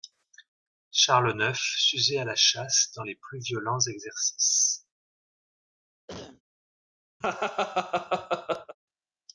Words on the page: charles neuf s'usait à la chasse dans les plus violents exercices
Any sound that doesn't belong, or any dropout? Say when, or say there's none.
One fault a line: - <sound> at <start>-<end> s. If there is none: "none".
- cough at 6.1-6.4 s
- laugh at 7.2-8.8 s